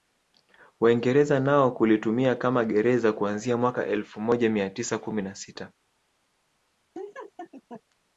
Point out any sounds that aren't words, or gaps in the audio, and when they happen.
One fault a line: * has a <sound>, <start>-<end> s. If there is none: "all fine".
* has a laugh, 6.9-7.8 s